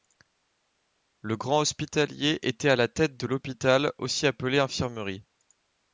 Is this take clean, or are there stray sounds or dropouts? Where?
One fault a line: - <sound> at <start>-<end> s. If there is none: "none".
none